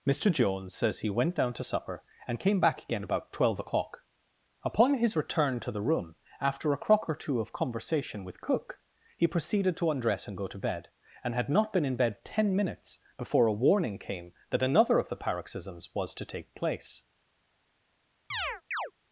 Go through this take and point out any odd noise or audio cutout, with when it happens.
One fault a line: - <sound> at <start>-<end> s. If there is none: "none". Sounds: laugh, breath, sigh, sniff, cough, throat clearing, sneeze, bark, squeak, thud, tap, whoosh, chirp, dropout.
- chirp at 18.3-18.9 s